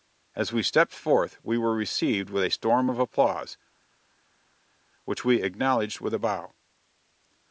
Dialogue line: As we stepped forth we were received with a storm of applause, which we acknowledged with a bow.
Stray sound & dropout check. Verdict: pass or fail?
pass